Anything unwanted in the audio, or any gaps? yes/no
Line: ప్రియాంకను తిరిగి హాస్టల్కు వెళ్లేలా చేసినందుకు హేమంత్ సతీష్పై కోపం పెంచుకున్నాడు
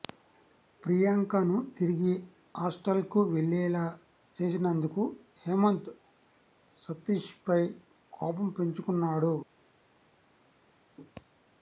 no